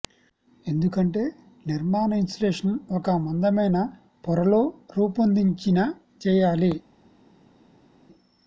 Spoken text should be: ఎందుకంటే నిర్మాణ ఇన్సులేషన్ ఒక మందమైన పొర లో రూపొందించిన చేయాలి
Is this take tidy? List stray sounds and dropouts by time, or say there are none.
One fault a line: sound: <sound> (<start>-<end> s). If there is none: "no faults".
no faults